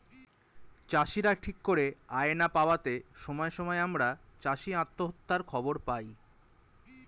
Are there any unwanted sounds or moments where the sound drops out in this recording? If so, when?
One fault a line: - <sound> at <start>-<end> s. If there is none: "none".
none